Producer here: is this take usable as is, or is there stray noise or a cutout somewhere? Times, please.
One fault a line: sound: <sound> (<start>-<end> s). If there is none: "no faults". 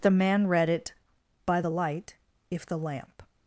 no faults